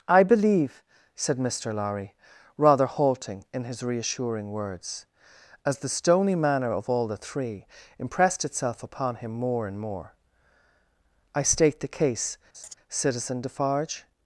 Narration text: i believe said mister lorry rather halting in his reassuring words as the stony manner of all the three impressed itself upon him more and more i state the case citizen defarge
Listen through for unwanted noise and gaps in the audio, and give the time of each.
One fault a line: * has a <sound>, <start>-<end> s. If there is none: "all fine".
* has a laugh, 12.5-12.7 s